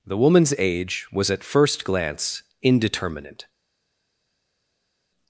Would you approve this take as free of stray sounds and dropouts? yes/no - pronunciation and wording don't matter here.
yes